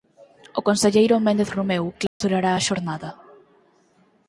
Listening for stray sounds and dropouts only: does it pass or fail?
fail